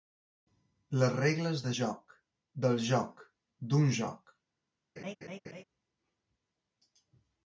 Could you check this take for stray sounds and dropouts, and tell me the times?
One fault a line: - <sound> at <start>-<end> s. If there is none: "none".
- laugh at 5.0-5.6 s